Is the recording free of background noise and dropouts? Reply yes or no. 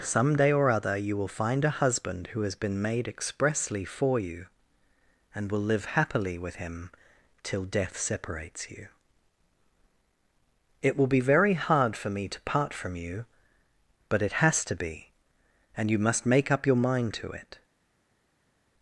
yes